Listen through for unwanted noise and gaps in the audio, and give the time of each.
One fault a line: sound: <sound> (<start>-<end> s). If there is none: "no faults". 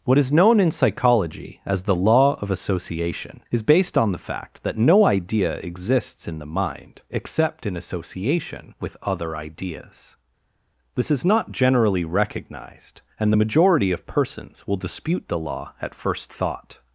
no faults